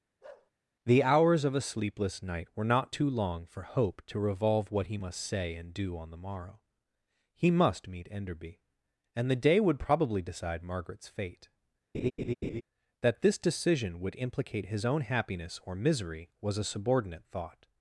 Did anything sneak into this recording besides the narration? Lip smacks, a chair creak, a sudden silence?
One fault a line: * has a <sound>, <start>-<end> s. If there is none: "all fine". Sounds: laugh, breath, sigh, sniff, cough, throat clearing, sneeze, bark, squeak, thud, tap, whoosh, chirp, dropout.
* has a bark, 0.2-0.5 s
* has a laugh, 11.9-12.6 s